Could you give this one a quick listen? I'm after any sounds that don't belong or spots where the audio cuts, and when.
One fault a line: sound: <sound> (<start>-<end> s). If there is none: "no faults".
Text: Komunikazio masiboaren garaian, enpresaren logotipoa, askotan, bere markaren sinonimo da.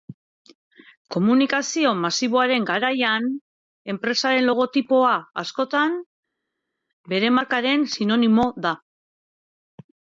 no faults